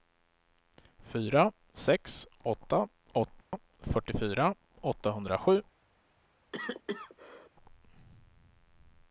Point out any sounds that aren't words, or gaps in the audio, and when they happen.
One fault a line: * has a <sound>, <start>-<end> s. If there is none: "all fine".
* has a dropout, 3.4-3.5 s
* has a cough, 6.5-7.5 s